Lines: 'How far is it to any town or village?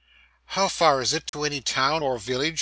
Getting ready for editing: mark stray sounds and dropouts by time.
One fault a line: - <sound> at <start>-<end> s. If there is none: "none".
- dropout at 1.3-1.3 s